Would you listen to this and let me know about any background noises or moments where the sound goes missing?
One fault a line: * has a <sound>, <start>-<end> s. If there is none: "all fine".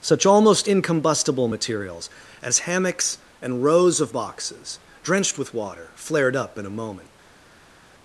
all fine